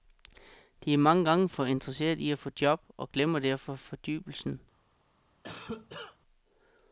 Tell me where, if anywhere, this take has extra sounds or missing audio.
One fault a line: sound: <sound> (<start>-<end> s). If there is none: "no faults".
sound: cough (5.4-6.2 s)